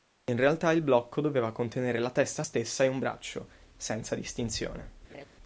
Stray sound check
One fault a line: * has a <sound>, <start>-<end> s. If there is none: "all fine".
* has a laugh, 5.1-5.3 s